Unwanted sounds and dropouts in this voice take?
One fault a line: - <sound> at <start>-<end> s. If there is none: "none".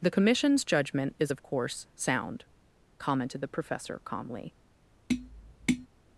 - tap at 5.1-5.9 s